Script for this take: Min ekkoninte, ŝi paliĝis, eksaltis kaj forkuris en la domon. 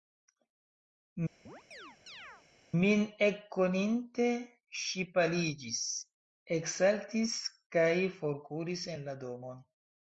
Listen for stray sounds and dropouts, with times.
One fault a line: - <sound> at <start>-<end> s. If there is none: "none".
- chirp at 1.5-2.4 s